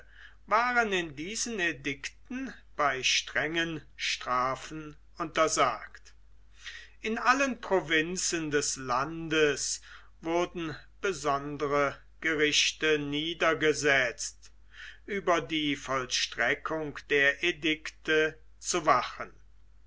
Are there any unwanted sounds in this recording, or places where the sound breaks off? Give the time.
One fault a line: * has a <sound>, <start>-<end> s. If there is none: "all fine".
all fine